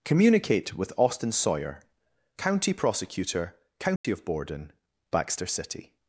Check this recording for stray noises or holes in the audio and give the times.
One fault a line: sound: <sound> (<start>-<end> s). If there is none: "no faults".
sound: dropout (4.0-4.0 s)